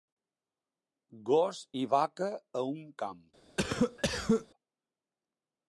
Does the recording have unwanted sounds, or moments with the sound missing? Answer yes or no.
yes